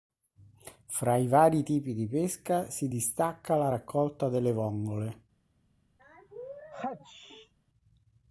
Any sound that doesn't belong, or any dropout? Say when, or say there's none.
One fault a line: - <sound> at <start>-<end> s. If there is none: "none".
- sneeze at 6.0-7.5 s